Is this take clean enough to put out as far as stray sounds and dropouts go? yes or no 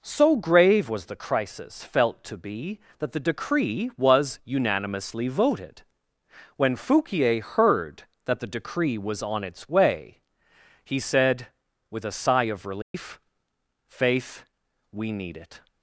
no